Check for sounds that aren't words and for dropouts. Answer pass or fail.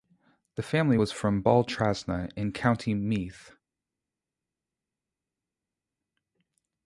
pass